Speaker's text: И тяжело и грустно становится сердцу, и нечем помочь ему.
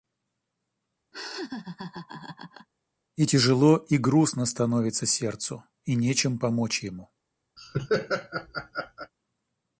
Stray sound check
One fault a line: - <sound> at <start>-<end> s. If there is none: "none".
- laugh at 1.1-2.7 s
- laugh at 7.6-9.1 s